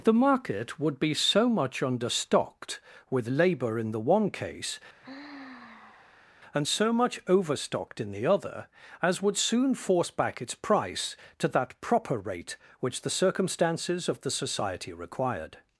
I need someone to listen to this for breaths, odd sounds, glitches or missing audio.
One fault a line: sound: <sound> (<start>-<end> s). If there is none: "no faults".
sound: sigh (5.0-6.3 s)